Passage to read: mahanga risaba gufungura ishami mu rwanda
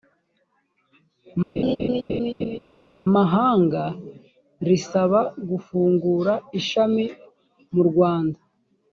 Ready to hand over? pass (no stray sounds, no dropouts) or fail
fail